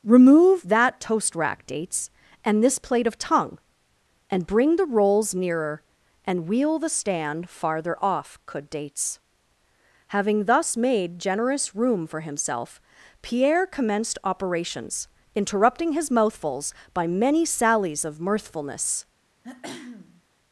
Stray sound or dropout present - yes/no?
yes